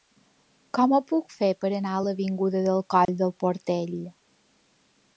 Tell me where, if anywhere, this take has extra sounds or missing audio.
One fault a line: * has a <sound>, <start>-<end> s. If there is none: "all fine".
* has a dropout, 3.1-3.1 s